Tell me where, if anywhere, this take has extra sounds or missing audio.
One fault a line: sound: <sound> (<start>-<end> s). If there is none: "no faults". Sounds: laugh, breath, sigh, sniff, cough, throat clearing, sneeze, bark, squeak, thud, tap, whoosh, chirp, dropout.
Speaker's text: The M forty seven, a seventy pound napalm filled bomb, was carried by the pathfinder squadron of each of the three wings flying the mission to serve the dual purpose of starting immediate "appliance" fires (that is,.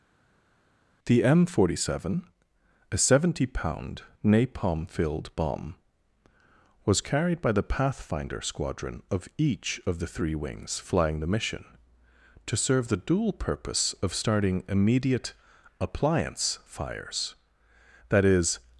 no faults